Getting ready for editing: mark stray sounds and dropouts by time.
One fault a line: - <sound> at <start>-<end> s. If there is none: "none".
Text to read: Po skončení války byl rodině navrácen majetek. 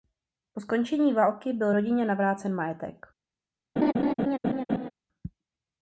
- laugh at 3.8-4.9 s